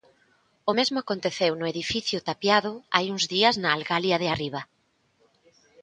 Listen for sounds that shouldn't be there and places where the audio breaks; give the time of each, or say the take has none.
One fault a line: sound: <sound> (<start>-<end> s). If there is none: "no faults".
no faults